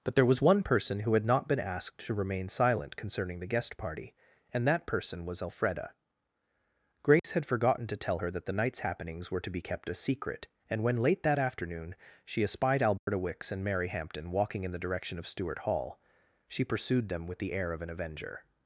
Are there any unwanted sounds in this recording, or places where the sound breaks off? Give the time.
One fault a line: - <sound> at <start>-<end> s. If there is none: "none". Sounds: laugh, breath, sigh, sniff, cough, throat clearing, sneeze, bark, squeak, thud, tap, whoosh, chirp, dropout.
- dropout at 7.2-7.2 s
- dropout at 13.0-13.1 s